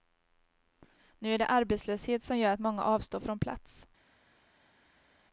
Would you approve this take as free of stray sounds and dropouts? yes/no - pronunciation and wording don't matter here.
yes